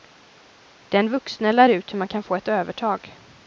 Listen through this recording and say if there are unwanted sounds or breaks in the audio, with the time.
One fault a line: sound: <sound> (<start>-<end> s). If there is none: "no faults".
no faults